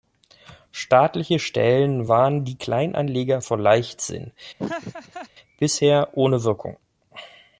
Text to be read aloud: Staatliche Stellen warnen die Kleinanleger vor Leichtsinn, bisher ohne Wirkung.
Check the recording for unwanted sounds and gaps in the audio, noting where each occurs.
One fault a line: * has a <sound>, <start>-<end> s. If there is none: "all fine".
* has a laugh, 4.6-5.3 s